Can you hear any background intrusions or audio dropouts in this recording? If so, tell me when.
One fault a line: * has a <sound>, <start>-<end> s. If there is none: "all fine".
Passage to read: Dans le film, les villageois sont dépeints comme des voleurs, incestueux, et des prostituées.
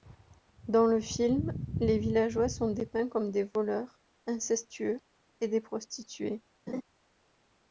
* has a laugh, 6.7-6.8 s